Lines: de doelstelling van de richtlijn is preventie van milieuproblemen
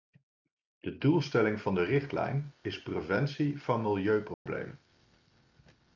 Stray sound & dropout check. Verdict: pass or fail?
fail